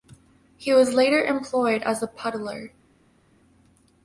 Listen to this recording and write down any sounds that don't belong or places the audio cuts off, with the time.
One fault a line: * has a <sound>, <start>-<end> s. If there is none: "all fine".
all fine